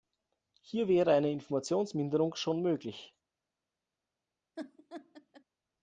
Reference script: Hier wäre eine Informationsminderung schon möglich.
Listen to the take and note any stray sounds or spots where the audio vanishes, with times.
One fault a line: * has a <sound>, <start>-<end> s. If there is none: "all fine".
* has a laugh, 4.6-5.4 s